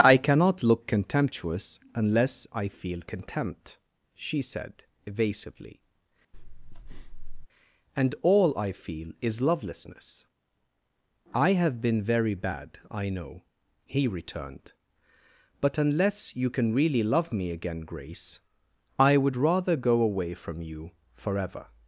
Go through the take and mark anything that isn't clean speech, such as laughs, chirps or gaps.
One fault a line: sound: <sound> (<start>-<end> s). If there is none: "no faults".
sound: breath (6.3-7.5 s)